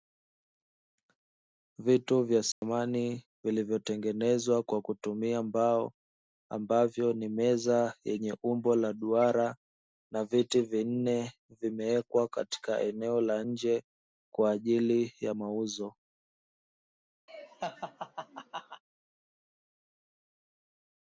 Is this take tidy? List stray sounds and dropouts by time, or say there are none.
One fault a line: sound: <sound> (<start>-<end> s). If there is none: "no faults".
sound: dropout (2.5-2.6 s)
sound: laugh (17.3-18.8 s)